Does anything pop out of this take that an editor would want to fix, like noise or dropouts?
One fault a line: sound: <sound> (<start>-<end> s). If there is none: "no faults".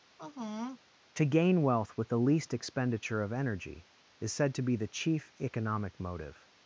sound: sigh (0.2-0.8 s)